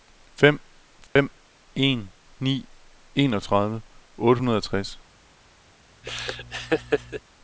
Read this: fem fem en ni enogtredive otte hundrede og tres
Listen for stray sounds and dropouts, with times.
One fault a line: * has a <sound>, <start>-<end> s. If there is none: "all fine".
* has a dropout, 1.1-1.2 s
* has a laugh, 6.0-7.2 s